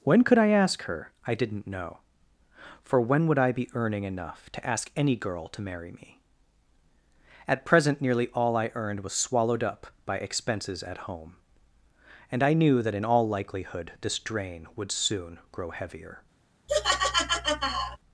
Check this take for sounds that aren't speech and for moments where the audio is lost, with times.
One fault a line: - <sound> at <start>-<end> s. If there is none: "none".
- laugh at 16.7-18.0 s